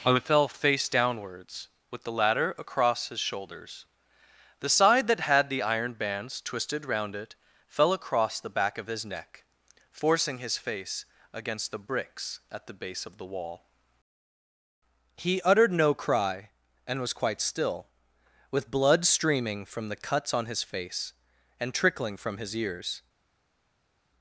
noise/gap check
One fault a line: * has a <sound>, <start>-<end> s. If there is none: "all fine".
all fine